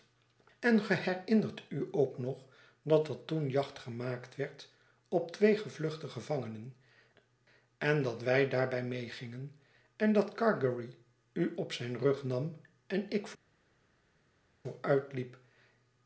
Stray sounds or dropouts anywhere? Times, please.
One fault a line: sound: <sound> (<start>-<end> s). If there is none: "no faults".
no faults